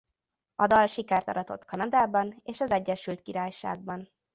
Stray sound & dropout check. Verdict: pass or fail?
pass